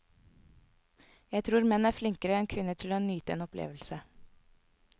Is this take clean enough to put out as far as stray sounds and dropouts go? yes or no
yes